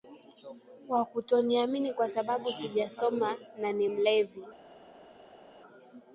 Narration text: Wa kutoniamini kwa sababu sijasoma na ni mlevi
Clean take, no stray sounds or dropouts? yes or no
yes